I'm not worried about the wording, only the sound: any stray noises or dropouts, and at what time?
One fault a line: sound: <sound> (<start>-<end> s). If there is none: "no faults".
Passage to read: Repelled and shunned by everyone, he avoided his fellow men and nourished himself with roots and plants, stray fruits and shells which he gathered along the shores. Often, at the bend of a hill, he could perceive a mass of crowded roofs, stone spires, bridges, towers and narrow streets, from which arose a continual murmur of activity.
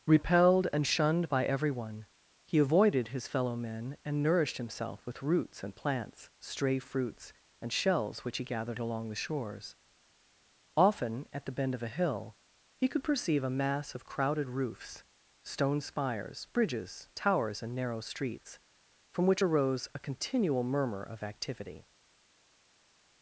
no faults